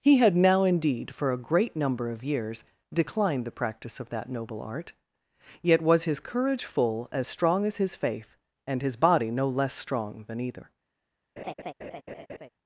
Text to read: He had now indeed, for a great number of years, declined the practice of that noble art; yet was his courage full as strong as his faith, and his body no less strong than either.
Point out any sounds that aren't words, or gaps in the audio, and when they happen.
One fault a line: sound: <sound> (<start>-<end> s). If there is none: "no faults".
sound: laugh (11.4-12.5 s)